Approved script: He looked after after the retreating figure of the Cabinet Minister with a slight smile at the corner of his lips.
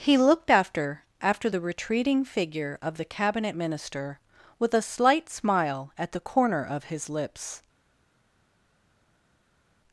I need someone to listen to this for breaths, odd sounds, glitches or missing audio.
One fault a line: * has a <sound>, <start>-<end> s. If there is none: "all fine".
all fine